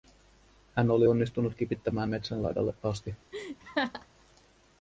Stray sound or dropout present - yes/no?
yes